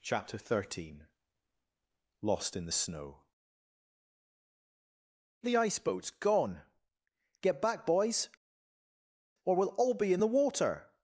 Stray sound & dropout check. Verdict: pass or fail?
pass